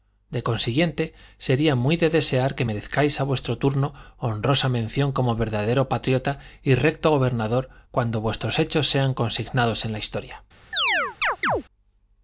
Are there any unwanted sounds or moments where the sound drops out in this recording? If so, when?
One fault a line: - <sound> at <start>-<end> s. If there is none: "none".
- chirp at 10.7-11.6 s